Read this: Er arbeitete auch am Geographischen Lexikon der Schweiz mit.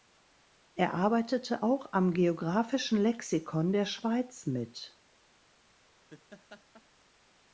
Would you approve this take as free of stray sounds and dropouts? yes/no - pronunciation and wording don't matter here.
no